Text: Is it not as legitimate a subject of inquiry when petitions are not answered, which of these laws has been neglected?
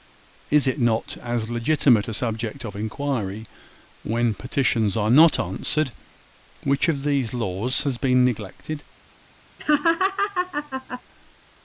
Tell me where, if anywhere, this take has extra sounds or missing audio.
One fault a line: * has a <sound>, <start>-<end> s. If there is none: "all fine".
* has a laugh, 9.6-11.0 s